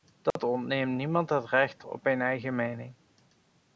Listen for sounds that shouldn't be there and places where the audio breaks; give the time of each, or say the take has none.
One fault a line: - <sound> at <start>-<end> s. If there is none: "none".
- dropout at 0.3-0.4 s